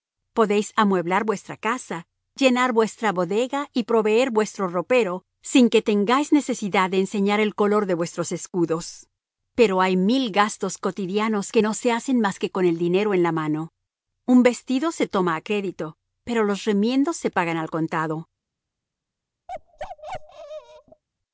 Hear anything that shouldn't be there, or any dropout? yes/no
yes